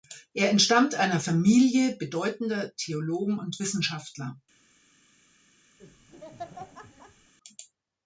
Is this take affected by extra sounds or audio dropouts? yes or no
yes